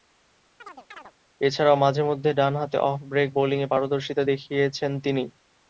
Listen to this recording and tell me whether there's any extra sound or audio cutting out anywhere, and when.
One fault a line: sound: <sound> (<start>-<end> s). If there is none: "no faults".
sound: chirp (0.6-1.1 s)